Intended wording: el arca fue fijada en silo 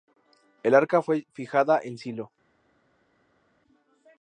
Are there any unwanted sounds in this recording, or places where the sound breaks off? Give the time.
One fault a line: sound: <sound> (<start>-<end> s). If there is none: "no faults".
no faults